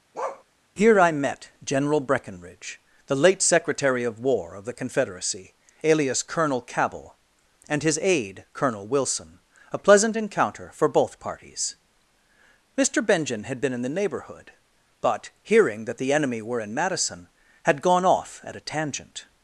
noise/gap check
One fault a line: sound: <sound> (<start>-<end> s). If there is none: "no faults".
sound: bark (0.1-0.4 s)